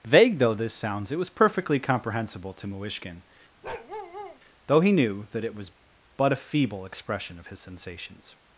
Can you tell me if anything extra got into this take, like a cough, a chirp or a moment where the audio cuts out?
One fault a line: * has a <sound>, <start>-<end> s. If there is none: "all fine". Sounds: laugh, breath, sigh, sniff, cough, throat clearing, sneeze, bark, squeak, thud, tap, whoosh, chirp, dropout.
* has a bark, 3.6-4.4 s